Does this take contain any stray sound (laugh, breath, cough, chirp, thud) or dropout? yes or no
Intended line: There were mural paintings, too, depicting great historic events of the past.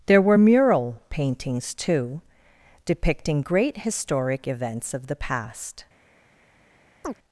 yes